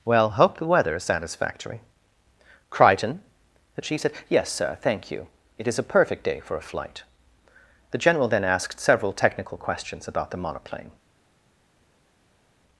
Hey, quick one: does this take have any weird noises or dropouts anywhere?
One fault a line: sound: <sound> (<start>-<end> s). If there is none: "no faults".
no faults